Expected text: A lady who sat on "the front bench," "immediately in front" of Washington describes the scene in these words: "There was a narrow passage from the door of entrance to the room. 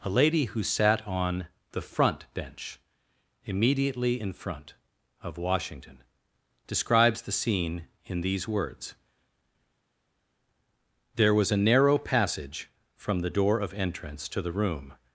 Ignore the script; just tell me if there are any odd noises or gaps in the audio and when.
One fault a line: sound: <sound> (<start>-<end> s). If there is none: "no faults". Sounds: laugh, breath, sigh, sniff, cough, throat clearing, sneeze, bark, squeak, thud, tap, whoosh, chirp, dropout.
no faults